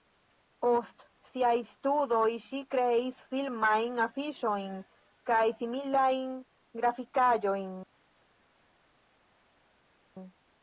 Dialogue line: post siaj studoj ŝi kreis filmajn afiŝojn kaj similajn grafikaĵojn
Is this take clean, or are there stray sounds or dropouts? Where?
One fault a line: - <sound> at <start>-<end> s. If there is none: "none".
none